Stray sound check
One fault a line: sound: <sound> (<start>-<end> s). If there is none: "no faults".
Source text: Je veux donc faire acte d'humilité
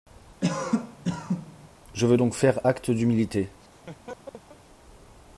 sound: cough (0.4-1.7 s)
sound: laugh (3.6-4.6 s)